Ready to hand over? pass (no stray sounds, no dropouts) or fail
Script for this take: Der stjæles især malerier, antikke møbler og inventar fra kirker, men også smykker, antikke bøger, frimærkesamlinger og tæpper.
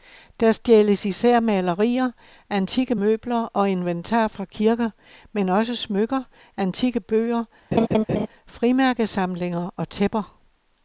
fail